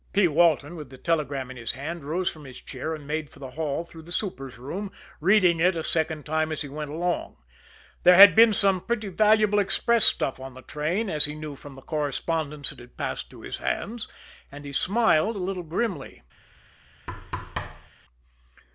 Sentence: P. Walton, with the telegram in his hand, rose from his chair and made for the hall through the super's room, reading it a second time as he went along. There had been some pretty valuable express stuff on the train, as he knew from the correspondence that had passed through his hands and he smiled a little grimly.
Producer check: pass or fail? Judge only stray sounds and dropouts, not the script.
fail